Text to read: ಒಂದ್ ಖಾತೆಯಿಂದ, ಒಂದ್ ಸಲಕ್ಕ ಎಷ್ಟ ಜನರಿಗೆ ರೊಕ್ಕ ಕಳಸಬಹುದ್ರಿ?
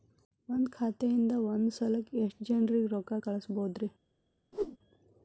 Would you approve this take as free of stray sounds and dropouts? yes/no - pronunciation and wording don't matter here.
no